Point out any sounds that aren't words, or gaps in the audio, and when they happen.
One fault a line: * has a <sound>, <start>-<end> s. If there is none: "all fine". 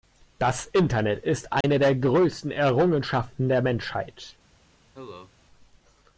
* has a dropout, 1.6-1.6 s
* has a cough, 4.9-5.3 s